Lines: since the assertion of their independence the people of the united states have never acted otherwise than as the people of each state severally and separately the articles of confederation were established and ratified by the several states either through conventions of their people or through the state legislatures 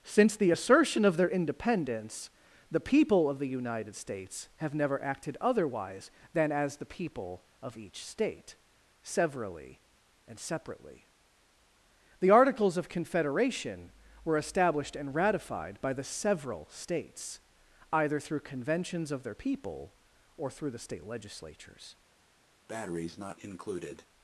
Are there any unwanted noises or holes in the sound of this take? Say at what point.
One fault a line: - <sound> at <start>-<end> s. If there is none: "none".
- breath at 22.7-24.1 s